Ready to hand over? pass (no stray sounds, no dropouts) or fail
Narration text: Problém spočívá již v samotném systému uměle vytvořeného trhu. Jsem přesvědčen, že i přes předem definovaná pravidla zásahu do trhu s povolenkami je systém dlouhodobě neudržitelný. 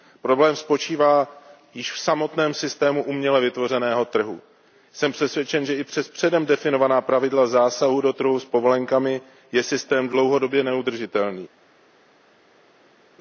pass